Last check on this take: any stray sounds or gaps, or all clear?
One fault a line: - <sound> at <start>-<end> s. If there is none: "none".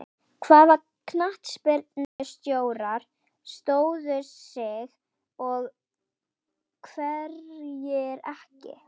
- dropout at 2.0-2.2 s